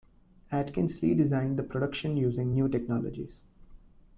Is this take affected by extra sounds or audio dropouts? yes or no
no